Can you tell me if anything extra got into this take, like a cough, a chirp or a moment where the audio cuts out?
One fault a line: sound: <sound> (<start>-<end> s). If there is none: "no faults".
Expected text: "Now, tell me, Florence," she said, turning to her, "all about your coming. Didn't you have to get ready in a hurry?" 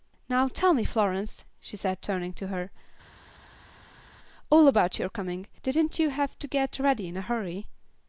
no faults